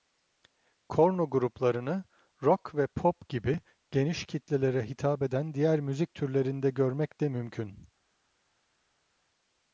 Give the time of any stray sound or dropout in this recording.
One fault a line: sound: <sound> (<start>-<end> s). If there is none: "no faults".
no faults